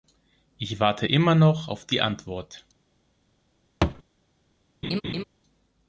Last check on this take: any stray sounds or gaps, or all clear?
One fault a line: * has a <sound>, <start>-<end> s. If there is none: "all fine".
* has a thud, 3.8-4.0 s
* has a laugh, 4.8-5.2 s